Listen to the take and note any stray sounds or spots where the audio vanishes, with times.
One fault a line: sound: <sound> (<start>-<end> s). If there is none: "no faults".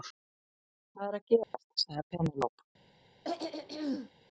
sound: dropout (1.4-1.5 s)
sound: throat clearing (3.2-4.1 s)